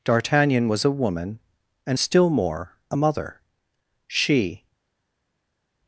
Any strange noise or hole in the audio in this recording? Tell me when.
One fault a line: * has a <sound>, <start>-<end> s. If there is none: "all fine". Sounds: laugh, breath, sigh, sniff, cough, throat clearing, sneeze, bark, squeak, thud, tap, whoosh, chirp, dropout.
all fine